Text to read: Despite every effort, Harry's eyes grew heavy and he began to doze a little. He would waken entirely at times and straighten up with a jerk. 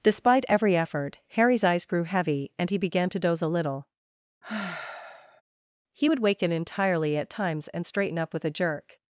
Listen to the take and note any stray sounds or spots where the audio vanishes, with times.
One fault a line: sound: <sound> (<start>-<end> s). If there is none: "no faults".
sound: sigh (4.4-5.4 s)